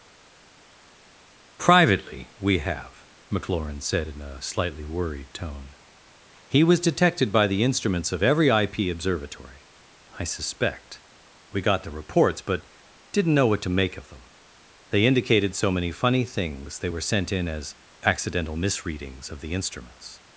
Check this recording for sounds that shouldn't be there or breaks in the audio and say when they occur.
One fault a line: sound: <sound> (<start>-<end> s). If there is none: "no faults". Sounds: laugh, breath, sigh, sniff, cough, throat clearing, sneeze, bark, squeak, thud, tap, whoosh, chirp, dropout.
no faults